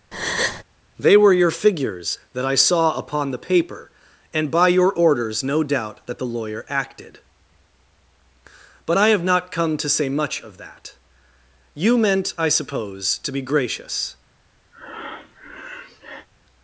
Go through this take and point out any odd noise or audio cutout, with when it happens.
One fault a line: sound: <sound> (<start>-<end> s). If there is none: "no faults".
sound: breath (0.1-0.6 s)
sound: breath (14.7-16.3 s)